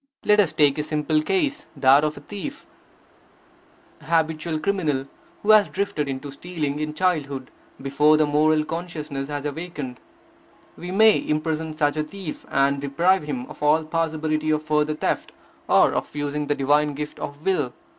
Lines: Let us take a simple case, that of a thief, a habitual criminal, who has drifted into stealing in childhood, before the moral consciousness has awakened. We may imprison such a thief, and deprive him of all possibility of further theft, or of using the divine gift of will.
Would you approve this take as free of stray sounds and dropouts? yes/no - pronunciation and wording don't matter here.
yes